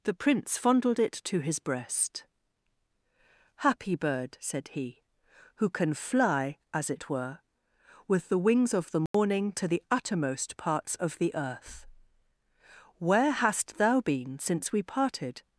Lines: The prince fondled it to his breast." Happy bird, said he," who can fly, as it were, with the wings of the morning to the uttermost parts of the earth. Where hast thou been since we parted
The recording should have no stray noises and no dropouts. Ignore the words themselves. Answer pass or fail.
fail